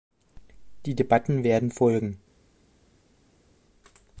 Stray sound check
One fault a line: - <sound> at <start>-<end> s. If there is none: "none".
none